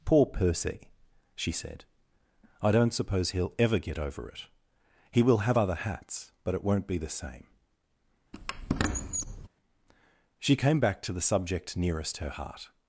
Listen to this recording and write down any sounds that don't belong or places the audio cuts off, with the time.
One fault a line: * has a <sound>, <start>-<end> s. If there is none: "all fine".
* has a squeak, 8.3-9.5 s